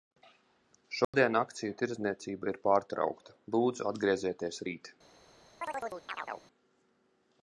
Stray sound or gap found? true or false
true